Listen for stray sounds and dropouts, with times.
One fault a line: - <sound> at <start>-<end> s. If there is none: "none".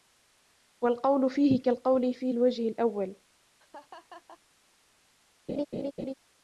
- laugh at 3.6-4.4 s
- laugh at 5.5-6.1 s